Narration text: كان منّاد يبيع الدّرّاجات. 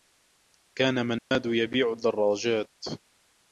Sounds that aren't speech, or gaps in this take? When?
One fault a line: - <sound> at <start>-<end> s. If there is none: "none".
- dropout at 1.2-1.3 s